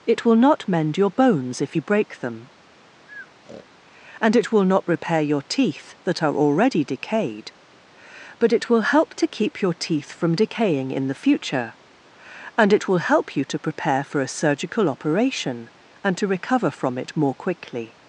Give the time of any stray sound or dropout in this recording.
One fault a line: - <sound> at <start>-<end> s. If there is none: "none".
- breath at 3.1-3.7 s